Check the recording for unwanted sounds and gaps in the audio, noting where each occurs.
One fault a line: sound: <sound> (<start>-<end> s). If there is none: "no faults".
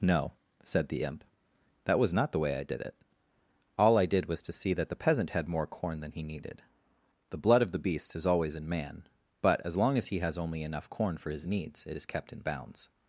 no faults